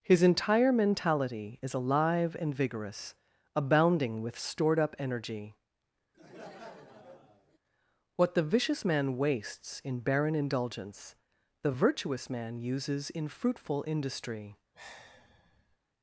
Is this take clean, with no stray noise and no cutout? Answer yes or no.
no